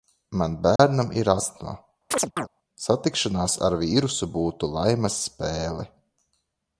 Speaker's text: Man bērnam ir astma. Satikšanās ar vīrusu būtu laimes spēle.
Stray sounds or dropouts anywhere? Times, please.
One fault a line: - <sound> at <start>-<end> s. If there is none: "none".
- dropout at 0.8-0.8 s
- chirp at 2.1-2.5 s